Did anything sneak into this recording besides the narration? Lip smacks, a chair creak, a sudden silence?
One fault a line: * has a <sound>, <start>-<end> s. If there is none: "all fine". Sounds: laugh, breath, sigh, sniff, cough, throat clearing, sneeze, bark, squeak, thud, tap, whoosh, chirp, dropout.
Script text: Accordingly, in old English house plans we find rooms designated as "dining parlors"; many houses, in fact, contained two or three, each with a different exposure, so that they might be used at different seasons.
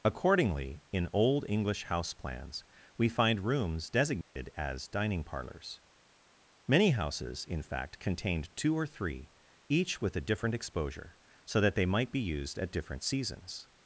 * has a dropout, 4.2-4.4 s